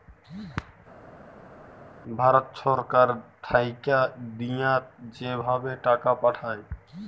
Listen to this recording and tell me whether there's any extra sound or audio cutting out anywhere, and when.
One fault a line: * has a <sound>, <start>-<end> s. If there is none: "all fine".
all fine